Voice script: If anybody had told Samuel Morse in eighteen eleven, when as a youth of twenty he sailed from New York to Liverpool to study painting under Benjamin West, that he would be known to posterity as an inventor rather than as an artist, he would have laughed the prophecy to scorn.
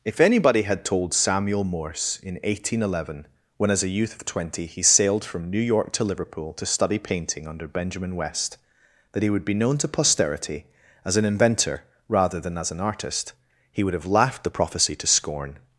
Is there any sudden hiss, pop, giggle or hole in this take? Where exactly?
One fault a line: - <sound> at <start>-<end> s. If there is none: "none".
none